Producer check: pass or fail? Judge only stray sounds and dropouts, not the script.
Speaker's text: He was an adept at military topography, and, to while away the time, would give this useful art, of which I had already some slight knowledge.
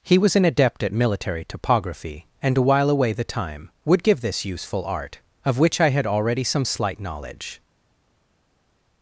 pass